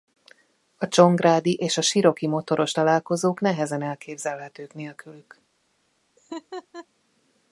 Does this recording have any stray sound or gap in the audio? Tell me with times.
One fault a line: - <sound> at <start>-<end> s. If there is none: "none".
- laugh at 6.2-6.9 s